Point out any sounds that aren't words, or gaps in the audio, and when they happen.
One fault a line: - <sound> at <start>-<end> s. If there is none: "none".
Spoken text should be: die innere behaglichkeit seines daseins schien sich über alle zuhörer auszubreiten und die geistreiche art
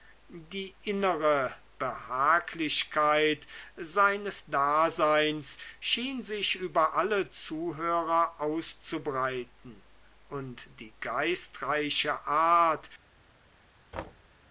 - thud at 13.9-14.3 s